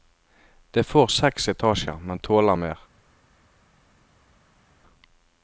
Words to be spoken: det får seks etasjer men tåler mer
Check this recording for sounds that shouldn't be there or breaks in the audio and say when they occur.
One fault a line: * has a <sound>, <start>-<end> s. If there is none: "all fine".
all fine